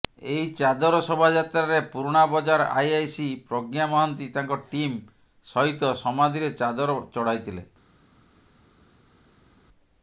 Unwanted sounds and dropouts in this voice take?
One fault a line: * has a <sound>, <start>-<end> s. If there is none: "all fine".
all fine